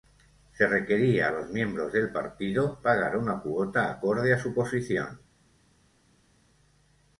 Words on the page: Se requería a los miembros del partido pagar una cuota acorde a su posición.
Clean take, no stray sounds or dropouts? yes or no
yes